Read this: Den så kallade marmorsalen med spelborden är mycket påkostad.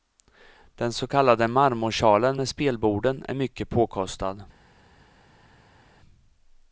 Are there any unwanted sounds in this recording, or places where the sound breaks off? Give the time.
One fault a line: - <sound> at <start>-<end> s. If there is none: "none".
none